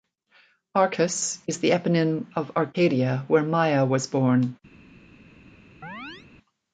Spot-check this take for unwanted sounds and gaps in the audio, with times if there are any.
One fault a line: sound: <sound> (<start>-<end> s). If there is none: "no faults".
sound: chirp (5.8-6.3 s)